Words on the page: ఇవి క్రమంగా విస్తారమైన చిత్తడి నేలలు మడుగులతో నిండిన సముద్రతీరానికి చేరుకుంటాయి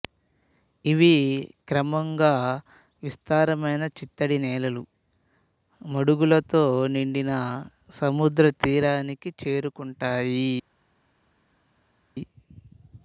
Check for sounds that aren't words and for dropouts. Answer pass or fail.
pass